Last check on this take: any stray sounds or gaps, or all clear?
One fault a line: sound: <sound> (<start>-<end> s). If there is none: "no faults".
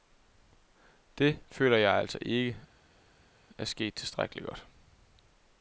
no faults